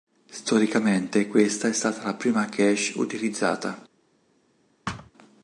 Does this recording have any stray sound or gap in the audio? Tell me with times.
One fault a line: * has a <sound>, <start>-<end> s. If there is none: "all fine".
* has a thud, 4.9-5.1 s